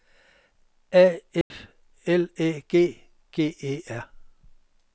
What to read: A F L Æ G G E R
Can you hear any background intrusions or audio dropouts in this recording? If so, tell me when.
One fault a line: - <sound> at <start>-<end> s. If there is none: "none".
- dropout at 1.4-1.5 s